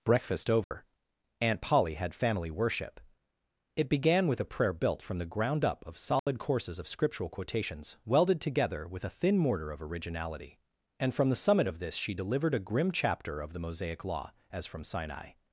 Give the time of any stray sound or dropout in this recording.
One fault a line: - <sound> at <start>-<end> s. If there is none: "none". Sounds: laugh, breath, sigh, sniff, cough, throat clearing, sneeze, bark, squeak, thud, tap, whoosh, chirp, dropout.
- dropout at 0.6-0.7 s
- dropout at 6.2-6.3 s